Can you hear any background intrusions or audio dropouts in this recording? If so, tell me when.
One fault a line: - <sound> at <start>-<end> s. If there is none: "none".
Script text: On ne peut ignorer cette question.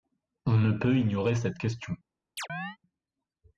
- chirp at 2.4-2.8 s